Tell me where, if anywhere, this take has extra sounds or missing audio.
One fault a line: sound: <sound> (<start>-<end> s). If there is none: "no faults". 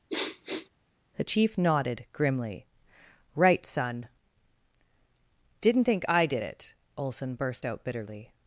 sound: sniff (0.1-0.7 s)